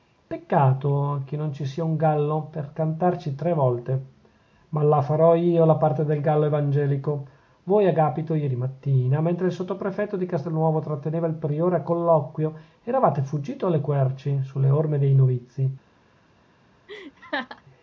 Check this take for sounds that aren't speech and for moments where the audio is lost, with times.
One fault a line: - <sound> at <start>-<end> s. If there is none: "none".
- laugh at 16.9-17.6 s